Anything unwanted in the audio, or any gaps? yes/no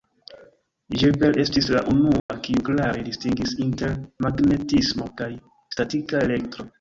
yes